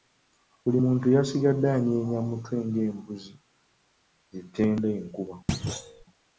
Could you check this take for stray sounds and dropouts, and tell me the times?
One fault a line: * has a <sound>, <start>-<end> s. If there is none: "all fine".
* has a thud, 5.5-6.0 s